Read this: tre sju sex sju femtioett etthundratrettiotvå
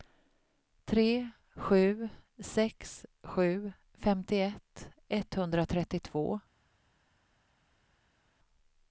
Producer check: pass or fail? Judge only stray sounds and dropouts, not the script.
pass